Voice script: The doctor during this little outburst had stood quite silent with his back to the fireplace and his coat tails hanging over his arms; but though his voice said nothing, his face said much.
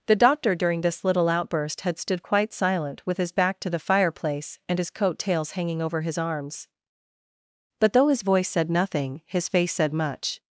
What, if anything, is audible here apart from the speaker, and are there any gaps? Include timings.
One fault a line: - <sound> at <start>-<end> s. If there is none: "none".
none